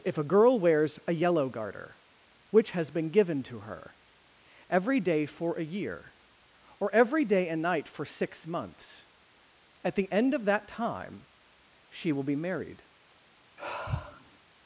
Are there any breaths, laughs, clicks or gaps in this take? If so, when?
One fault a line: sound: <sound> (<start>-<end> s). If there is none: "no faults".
sound: sigh (13.6-14.4 s)